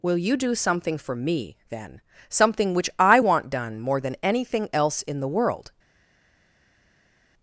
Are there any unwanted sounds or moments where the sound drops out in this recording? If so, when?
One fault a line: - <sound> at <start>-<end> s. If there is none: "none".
none